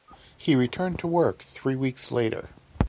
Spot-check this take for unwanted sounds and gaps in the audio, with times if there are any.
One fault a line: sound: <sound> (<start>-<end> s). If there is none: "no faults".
no faults